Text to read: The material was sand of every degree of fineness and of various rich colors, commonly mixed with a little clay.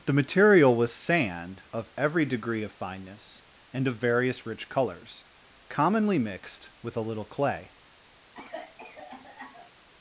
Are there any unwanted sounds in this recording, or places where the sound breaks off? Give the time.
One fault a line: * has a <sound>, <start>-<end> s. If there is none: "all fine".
* has a cough, 8.3-9.7 s